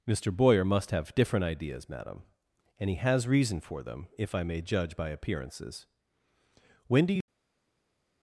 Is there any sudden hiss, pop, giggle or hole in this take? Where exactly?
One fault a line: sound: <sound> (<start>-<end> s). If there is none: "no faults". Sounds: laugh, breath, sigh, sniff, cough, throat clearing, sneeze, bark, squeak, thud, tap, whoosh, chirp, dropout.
no faults